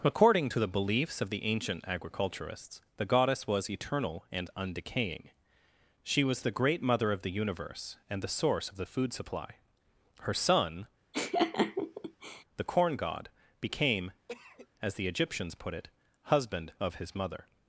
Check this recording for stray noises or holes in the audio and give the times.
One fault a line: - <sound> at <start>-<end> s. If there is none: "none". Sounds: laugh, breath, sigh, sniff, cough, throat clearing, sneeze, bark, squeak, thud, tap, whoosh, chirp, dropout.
- laugh at 11.1-12.4 s
- cough at 14.3-14.7 s